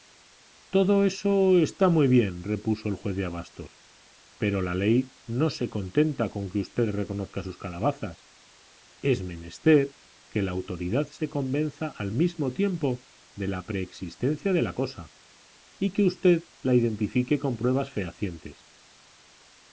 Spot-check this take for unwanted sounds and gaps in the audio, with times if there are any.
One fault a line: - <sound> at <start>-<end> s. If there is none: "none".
none